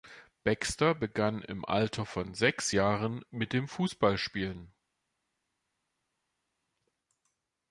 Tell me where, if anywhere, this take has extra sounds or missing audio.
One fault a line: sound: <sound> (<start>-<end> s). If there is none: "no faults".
no faults